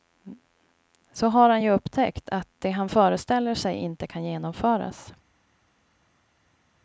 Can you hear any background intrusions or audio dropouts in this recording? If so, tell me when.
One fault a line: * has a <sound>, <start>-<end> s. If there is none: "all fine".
all fine